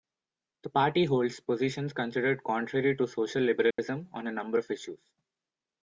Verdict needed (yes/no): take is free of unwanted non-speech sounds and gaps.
no